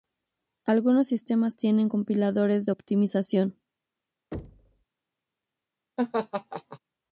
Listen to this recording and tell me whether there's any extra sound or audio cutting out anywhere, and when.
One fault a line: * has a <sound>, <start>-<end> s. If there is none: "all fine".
* has a thud, 4.3-4.8 s
* has a laugh, 6.0-6.8 s